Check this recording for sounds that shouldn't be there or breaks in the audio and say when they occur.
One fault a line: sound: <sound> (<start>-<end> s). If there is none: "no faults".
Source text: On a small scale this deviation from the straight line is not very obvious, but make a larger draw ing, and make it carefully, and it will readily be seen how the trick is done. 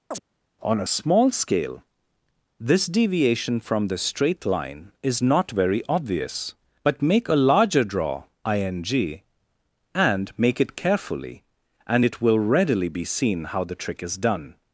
sound: chirp (0.1-0.2 s)